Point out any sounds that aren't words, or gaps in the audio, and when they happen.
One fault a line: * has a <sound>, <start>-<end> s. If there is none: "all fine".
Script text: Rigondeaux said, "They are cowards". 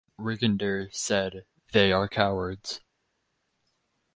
all fine